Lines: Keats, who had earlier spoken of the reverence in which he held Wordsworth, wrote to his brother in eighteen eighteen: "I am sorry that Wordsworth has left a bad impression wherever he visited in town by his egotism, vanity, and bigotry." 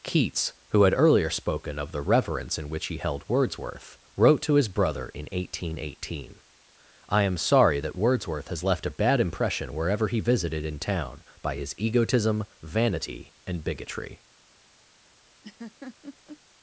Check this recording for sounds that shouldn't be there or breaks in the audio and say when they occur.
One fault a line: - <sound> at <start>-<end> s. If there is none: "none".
- laugh at 15.4-16.4 s